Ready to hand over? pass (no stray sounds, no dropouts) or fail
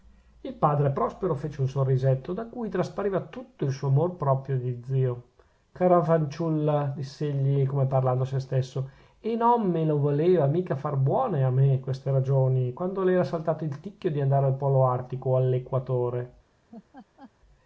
fail